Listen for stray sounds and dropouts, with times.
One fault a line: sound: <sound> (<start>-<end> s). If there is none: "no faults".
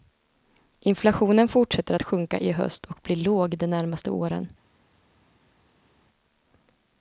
no faults